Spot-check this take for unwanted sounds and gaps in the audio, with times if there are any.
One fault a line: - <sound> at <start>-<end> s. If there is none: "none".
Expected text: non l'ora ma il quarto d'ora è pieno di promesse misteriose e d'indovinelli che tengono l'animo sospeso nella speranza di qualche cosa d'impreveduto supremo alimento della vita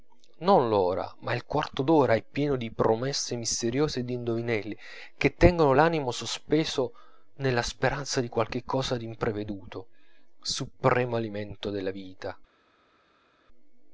none